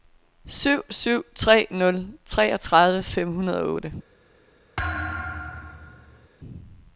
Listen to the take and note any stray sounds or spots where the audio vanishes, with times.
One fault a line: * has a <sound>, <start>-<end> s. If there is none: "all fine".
* has a thud, 4.8-6.3 s